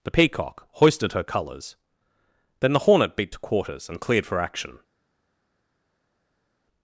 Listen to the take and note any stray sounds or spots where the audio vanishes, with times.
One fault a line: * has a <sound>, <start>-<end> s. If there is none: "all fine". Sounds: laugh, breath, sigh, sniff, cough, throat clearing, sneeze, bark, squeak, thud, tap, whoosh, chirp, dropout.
all fine